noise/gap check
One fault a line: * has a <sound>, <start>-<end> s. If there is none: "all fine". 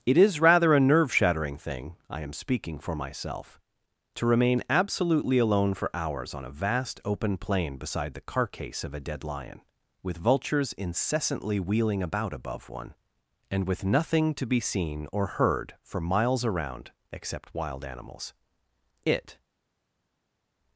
all fine